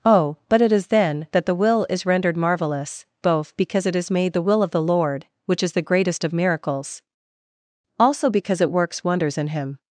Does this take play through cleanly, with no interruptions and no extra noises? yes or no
yes